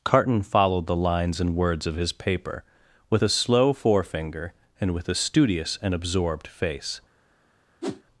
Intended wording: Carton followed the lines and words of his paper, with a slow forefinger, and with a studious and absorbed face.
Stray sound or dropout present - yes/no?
yes